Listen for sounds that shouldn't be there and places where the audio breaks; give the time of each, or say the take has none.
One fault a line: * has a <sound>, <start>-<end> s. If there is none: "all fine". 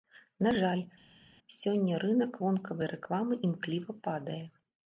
all fine